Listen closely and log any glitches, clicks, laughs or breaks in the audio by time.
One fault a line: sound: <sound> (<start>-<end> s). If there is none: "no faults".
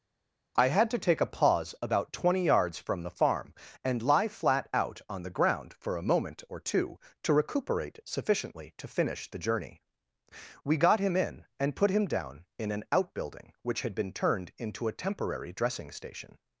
no faults